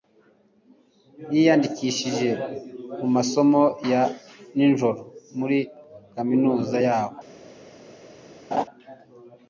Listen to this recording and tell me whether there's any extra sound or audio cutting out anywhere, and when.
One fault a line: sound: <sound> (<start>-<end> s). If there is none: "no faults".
sound: laugh (8.5-8.7 s)